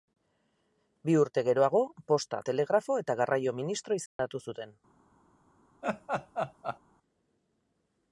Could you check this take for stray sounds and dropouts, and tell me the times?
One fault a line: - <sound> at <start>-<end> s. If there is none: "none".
- dropout at 4.1-4.2 s
- laugh at 5.8-6.8 s